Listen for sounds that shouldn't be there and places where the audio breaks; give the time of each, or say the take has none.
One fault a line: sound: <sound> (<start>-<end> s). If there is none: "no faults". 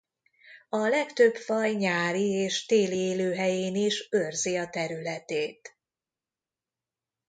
no faults